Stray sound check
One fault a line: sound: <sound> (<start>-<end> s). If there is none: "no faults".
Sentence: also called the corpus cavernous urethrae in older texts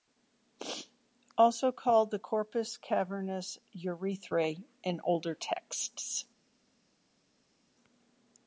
no faults